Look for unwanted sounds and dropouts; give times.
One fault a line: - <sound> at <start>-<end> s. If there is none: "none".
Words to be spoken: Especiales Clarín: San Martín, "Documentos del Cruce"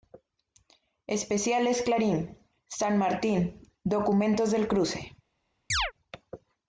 - chirp at 5.7-5.9 s